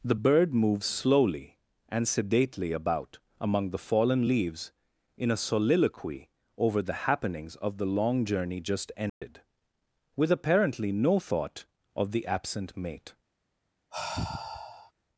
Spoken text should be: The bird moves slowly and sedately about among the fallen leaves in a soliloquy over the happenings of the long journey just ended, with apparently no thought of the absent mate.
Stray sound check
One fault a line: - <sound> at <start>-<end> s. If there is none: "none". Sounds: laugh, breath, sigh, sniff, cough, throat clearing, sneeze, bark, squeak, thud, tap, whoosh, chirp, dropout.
- dropout at 9.1-9.2 s
- sigh at 13.9-14.9 s